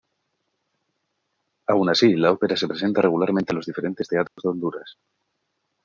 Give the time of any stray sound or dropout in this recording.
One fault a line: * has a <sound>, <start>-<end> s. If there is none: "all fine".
* has a dropout, 4.3-4.4 s